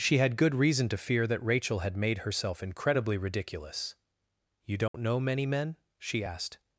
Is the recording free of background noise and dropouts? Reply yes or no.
no